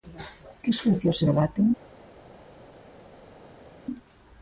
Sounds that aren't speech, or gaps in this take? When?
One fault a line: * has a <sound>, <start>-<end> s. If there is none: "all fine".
all fine